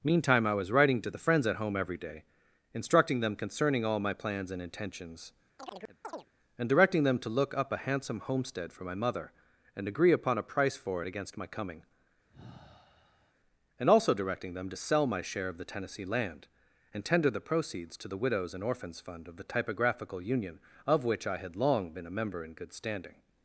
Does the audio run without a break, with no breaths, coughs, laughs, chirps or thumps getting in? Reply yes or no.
no